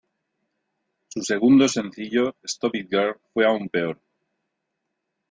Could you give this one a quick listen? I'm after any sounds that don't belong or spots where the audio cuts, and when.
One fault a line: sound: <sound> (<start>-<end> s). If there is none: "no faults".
no faults